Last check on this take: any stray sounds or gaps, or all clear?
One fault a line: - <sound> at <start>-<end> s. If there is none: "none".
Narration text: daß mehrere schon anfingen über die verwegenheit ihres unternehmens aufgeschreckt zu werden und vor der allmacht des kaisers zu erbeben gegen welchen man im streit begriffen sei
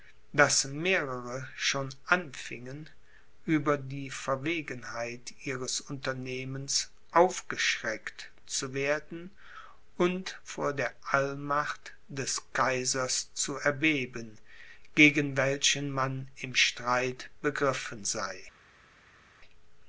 none